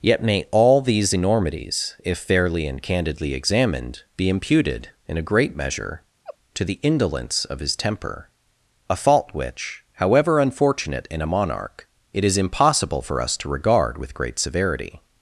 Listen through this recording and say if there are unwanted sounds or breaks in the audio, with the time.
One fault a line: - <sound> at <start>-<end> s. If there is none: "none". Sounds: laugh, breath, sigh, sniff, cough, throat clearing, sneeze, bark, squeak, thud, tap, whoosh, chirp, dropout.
- laugh at 6.2-6.4 s